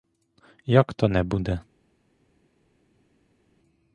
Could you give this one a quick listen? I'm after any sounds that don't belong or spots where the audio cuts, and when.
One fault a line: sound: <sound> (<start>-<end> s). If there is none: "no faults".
no faults